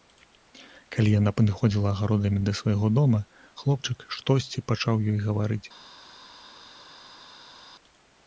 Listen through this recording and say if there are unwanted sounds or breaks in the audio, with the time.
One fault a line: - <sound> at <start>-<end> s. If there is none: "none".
none